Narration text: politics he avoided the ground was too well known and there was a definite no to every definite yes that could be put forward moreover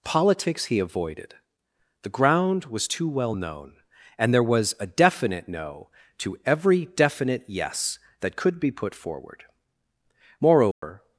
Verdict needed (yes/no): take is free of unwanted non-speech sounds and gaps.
no